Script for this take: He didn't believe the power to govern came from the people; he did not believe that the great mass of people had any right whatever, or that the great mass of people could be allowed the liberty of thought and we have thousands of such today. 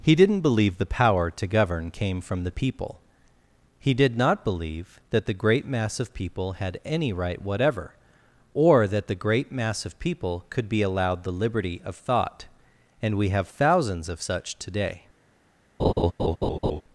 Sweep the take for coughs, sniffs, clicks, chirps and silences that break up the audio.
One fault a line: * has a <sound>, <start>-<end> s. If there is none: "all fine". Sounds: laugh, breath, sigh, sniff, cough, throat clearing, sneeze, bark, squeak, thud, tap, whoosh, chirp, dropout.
* has a laugh, 15.8-16.8 s